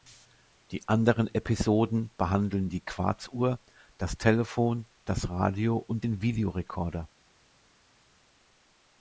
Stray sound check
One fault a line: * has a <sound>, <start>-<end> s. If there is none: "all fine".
all fine